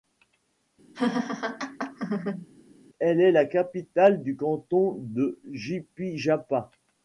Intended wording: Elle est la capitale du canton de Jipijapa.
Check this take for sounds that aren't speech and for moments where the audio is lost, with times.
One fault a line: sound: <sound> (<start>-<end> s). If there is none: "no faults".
sound: laugh (0.9-2.5 s)